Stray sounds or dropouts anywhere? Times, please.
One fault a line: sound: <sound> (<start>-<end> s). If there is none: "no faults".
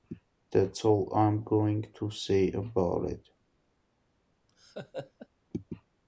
sound: laugh (4.5-5.3 s)